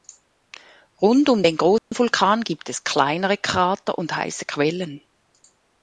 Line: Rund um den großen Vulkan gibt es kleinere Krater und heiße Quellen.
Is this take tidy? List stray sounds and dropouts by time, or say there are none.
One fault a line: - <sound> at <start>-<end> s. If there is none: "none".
- dropout at 1.8-1.9 s